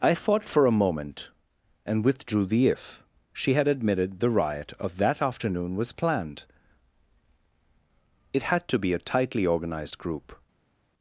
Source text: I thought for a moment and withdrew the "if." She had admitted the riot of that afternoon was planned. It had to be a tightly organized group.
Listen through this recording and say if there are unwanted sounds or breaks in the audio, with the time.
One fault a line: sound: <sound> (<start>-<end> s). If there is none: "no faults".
no faults